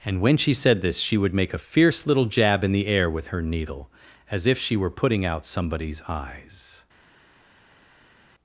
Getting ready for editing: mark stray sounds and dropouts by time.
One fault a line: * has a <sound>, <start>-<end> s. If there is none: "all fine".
all fine